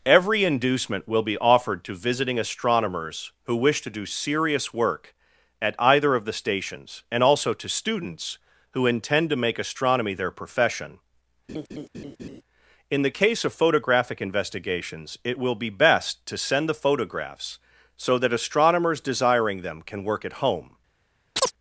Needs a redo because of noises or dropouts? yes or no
yes